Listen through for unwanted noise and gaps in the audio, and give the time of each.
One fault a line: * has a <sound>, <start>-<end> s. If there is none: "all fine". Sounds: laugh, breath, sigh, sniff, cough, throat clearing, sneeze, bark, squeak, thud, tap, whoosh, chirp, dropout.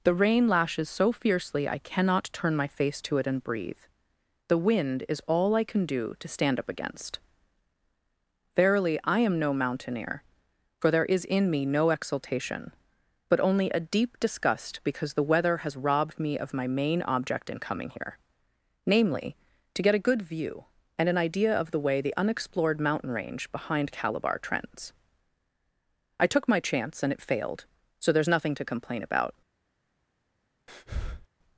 * has a breath, 30.7-31.3 s